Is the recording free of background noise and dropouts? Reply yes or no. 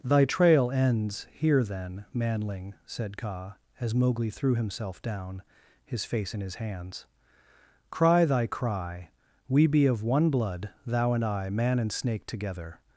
yes